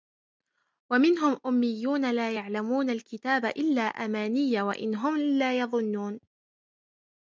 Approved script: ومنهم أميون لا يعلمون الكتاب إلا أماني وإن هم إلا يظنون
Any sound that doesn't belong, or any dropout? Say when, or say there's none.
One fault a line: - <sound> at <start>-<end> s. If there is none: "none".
none